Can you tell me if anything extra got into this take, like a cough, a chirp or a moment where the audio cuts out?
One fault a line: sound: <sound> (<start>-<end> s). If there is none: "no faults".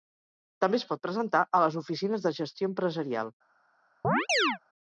sound: chirp (4.0-4.6 s)